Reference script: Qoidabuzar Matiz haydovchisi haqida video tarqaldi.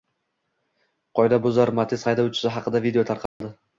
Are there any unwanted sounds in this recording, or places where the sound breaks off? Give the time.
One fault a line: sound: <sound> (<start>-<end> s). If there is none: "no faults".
sound: dropout (3.3-3.4 s)